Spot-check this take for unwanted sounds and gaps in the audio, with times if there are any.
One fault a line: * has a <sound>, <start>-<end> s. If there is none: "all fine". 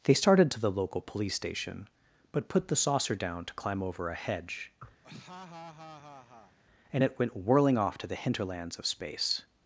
* has a laugh, 5.0-6.6 s